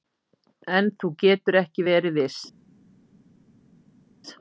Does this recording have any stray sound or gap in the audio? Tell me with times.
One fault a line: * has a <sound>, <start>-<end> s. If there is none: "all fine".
all fine